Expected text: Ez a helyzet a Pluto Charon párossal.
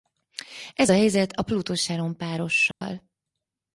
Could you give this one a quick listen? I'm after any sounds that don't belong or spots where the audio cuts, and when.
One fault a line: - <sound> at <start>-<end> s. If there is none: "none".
- dropout at 2.7-2.8 s